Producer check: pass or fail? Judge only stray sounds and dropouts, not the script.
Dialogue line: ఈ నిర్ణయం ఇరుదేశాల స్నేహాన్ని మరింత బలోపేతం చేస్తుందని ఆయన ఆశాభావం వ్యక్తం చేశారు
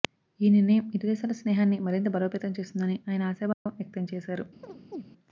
fail